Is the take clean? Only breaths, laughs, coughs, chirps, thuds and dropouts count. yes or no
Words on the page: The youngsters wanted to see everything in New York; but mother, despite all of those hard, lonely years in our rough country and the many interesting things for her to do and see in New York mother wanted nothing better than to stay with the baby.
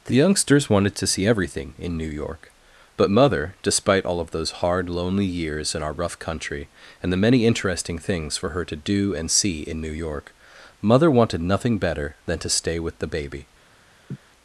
no